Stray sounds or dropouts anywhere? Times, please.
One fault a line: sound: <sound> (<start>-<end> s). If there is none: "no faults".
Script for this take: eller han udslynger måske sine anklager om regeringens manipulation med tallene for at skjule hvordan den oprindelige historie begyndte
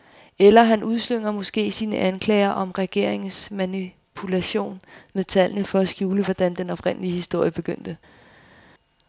no faults